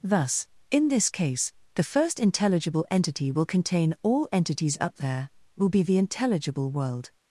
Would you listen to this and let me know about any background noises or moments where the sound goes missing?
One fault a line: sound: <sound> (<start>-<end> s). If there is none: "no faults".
no faults